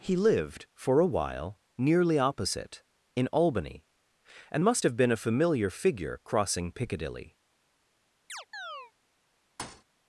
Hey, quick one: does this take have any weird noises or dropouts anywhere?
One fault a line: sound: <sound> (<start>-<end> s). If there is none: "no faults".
sound: chirp (8.3-8.9 s)
sound: thud (9.6-9.8 s)